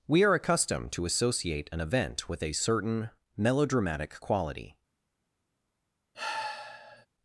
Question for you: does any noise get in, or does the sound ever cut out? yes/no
yes